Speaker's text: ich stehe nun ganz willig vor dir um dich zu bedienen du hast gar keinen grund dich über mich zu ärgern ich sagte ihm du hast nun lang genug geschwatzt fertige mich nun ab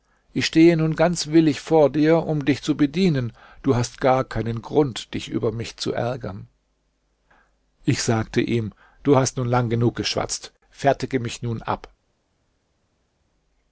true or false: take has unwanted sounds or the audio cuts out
false